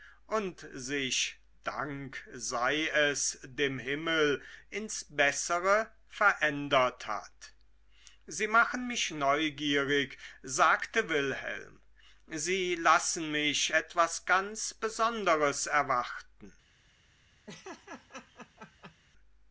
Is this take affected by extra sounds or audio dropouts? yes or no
yes